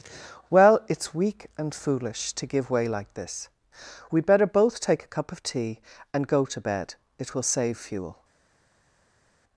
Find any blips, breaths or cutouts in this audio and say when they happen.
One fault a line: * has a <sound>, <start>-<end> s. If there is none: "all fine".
all fine